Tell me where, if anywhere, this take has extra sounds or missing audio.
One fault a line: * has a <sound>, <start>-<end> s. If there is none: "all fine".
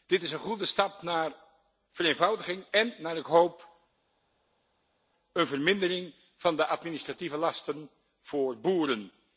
all fine